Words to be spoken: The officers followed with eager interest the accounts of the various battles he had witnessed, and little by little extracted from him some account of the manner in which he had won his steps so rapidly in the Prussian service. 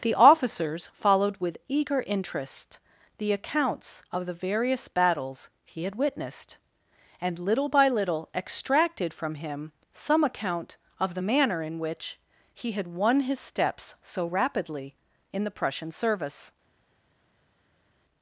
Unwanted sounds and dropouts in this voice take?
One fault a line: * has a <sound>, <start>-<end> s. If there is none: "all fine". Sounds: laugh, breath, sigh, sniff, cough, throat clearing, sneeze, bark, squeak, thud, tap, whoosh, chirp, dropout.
all fine